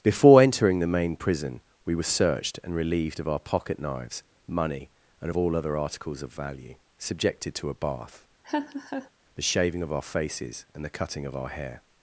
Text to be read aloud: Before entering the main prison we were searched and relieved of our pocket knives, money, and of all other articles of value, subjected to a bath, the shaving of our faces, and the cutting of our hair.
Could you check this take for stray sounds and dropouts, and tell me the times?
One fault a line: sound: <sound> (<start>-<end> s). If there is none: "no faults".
sound: laugh (8.4-9.1 s)